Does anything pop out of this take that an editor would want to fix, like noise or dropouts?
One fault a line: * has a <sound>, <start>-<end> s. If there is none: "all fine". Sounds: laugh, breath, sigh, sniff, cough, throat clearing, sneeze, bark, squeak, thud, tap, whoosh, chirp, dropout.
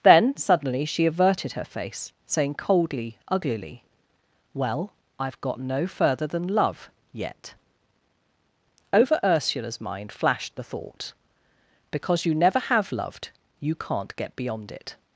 all fine